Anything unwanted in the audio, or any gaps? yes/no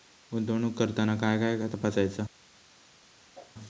yes